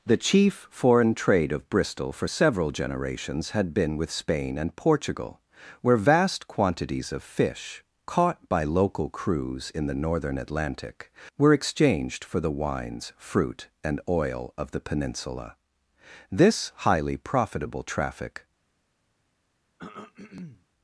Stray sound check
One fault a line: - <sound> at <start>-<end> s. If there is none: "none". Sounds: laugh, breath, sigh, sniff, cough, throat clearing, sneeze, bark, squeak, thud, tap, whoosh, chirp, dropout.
- throat clearing at 19.8-20.7 s